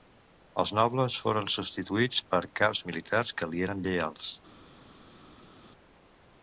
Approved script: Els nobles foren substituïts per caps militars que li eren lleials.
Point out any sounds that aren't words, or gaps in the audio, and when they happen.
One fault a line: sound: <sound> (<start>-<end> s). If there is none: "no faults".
no faults